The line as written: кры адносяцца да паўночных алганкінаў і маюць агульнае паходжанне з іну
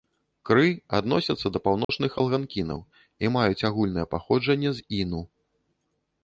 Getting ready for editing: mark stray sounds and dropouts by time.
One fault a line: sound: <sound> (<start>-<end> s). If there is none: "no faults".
sound: dropout (1.8-1.9 s)